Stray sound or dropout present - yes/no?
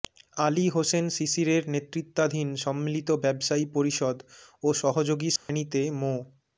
yes